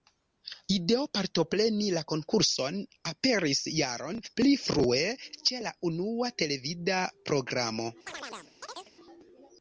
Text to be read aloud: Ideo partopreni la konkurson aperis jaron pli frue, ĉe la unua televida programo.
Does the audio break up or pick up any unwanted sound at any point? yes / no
yes